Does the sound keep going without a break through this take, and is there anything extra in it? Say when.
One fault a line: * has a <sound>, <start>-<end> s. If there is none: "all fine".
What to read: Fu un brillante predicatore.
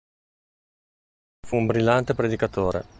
all fine